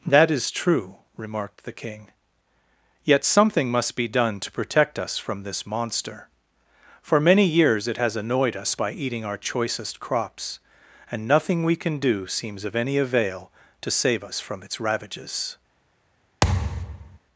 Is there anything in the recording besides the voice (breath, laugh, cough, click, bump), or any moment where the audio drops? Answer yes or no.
yes